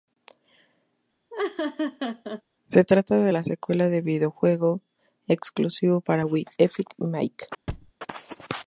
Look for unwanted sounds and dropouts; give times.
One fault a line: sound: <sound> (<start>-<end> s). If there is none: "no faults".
sound: laugh (1.3-2.4 s)
sound: thud (7.7-7.9 s)